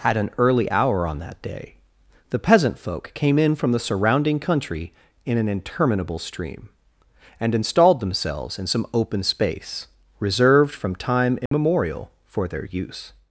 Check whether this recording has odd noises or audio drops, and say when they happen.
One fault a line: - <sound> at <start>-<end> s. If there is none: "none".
- dropout at 11.5-11.5 s